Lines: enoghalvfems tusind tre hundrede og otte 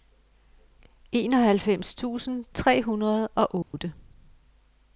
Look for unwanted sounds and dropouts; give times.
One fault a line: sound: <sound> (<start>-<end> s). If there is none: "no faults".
sound: dropout (3.6-3.7 s)